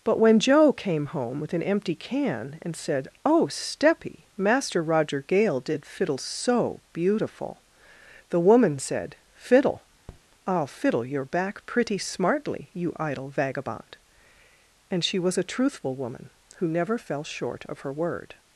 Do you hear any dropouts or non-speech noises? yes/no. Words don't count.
yes